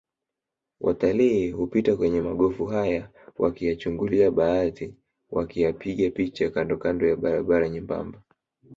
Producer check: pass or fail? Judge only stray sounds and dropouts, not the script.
pass